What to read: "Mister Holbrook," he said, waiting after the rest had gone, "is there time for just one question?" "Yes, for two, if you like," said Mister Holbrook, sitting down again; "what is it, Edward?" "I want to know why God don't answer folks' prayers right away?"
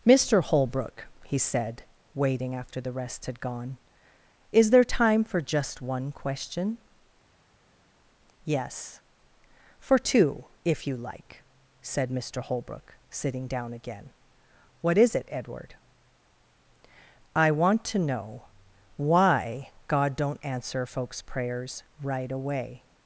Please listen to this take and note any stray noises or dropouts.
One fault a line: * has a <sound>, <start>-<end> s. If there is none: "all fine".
all fine